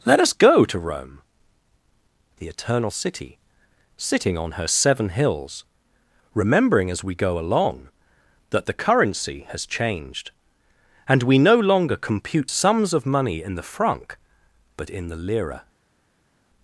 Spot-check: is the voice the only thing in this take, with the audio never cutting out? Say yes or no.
yes